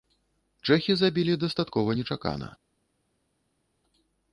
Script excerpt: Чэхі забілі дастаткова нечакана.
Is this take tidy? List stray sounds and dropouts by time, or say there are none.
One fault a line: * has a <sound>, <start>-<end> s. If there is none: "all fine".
all fine